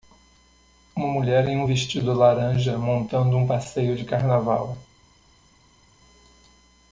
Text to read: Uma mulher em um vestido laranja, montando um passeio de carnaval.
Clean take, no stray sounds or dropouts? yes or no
yes